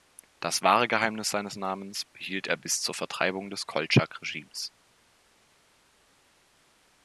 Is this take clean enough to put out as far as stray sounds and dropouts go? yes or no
yes